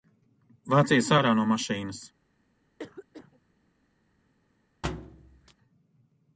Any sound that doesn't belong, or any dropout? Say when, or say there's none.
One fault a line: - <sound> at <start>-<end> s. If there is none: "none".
- cough at 2.8-3.4 s
- thud at 4.8-5.5 s